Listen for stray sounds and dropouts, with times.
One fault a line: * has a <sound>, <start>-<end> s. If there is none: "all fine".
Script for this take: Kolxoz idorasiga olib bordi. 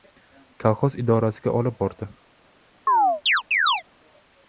* has a chirp, 2.9-3.8 s